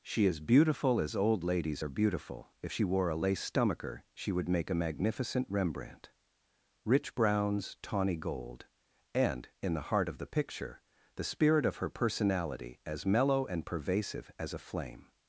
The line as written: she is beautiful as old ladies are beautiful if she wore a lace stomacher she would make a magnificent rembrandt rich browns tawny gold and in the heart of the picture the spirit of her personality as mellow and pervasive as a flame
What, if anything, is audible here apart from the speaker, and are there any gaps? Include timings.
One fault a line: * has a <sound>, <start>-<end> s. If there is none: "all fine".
all fine